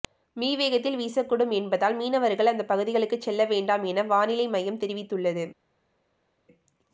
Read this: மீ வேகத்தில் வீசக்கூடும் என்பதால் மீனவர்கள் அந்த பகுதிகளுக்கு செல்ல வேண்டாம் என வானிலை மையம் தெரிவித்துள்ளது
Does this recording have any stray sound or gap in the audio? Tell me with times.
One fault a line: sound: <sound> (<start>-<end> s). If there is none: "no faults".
no faults